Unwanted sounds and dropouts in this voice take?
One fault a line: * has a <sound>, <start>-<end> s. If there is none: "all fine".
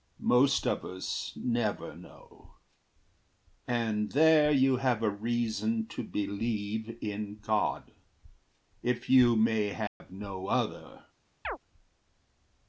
* has a dropout, 9.9-10.0 s
* has a chirp, 11.4-11.6 s